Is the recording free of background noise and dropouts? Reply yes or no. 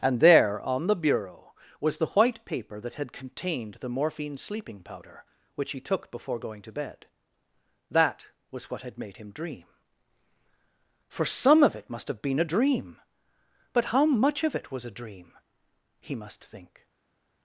yes